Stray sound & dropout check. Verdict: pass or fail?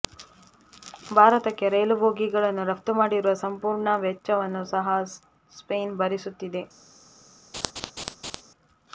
fail